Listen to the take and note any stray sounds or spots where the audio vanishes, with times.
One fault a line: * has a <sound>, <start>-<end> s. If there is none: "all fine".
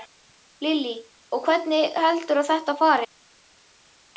all fine